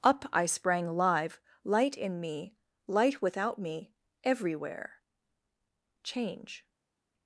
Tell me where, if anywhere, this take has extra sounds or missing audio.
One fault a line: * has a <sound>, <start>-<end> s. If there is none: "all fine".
all fine